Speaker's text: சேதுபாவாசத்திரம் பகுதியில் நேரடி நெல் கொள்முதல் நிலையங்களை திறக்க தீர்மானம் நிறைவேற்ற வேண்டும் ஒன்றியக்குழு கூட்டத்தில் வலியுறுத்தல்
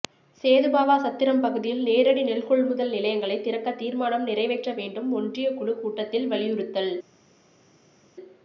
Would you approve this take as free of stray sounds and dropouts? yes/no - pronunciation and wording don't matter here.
yes